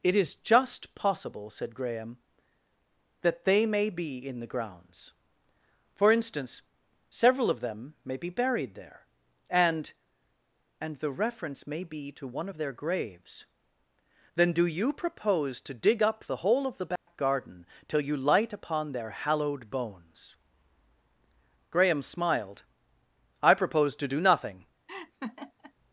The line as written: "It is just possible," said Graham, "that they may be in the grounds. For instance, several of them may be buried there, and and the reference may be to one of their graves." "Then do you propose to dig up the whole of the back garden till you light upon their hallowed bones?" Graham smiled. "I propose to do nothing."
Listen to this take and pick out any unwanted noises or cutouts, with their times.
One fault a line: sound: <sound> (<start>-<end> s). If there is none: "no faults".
sound: dropout (17.0-17.1 s)
sound: laugh (24.9-25.7 s)